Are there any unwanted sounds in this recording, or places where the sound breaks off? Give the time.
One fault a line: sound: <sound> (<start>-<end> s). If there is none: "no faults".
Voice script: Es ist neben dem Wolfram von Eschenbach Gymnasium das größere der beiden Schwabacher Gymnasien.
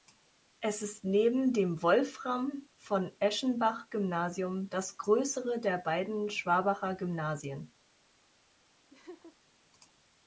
sound: laugh (8.9-9.4 s)